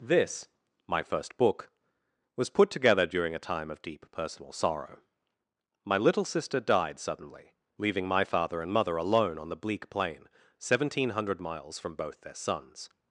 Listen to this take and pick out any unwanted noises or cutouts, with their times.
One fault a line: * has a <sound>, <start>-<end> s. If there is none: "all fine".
all fine